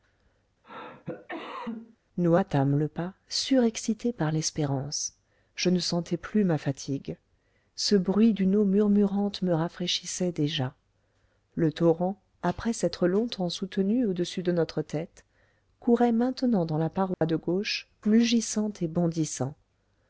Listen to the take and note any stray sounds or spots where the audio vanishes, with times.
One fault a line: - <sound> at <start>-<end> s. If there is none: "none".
- cough at 0.6-2.0 s
- dropout at 17.1-17.2 s